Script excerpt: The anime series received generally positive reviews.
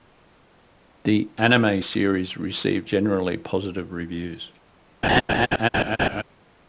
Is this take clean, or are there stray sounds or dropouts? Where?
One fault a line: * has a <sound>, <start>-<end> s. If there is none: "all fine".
* has a laugh, 5.0-6.2 s